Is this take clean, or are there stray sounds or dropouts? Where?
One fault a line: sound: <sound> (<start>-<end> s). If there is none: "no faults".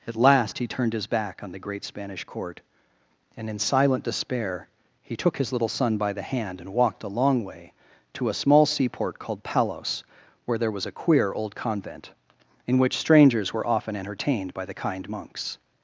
no faults